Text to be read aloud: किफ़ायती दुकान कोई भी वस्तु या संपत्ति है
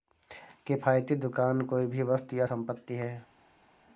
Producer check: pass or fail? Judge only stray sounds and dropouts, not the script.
pass